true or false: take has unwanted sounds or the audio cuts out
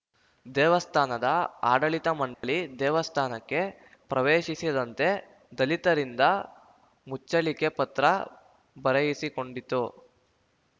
true